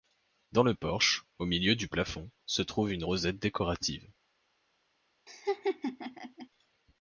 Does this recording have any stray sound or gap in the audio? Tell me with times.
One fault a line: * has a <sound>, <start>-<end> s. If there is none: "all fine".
* has a laugh, 5.3-6.5 s